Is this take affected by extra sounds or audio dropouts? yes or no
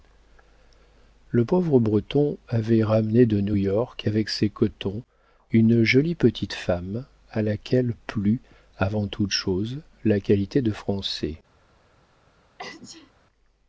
yes